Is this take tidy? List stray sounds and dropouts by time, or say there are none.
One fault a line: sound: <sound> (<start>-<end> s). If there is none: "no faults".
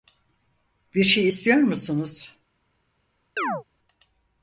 sound: chirp (3.4-3.6 s)